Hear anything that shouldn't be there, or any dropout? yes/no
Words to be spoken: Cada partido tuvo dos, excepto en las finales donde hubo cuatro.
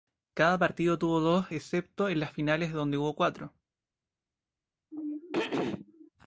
yes